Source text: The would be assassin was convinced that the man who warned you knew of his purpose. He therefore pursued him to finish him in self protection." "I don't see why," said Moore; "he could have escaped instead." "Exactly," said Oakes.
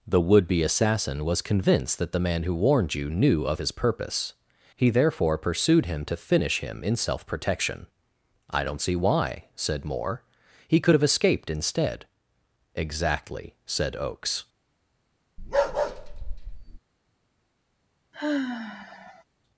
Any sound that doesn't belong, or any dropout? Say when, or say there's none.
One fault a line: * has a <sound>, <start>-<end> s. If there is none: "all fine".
* has a bark, 15.4-16.8 s
* has a sigh, 18.1-19.2 s